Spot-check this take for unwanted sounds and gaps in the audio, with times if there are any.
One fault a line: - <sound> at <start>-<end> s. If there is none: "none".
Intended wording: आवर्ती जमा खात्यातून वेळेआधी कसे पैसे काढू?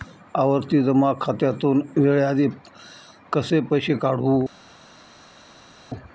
none